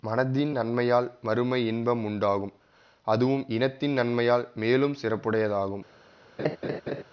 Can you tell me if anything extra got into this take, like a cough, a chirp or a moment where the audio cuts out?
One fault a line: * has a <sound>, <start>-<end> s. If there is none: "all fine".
* has a laugh, 6.4-7.0 s